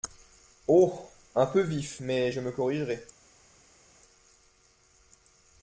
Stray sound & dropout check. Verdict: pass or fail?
pass